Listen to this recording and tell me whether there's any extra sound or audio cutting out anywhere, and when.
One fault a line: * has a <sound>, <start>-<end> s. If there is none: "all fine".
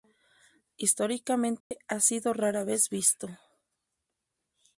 * has a dropout, 1.6-1.7 s